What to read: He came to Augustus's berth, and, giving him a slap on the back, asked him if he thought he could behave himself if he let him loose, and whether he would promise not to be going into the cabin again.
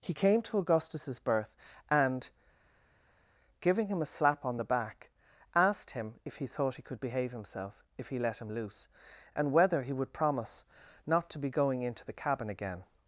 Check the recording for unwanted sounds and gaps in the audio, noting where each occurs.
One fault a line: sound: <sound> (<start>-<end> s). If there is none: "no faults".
no faults